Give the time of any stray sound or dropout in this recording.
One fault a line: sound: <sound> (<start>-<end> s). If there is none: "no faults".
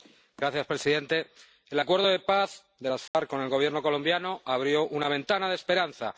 sound: dropout (3.1-3.1 s)